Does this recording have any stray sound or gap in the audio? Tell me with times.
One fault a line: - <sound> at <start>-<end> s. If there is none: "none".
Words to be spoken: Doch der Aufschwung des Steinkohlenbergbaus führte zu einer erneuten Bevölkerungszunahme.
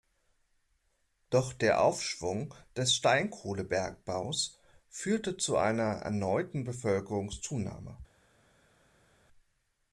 none